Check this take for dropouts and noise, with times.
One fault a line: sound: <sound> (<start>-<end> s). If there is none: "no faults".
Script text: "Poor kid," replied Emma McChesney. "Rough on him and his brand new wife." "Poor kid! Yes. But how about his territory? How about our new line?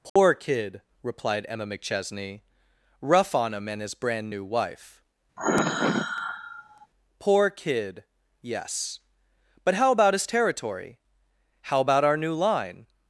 sound: dropout (0.1-0.2 s)
sound: sigh (5.4-6.9 s)